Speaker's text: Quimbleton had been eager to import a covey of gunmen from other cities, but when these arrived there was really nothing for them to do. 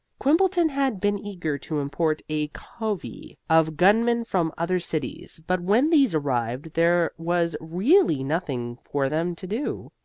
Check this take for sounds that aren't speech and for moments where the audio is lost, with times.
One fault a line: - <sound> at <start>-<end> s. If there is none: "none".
none